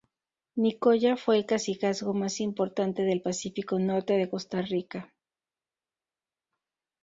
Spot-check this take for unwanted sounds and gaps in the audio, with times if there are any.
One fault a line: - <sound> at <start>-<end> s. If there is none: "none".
none